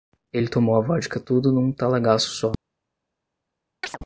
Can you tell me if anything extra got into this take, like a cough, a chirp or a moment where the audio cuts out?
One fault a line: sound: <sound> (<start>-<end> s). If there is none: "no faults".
sound: chirp (3.8-4.0 s)